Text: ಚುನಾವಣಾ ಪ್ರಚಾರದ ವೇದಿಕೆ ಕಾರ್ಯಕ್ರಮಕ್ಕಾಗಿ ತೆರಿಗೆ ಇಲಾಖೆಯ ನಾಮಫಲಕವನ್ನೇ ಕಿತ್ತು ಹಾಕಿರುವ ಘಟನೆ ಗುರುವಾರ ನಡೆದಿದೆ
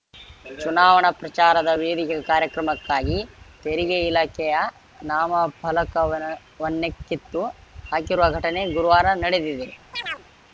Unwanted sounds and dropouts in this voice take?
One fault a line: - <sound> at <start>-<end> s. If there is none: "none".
- chirp at 9.9-10.3 s